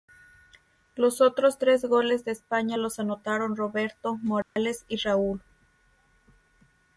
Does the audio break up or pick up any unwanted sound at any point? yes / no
yes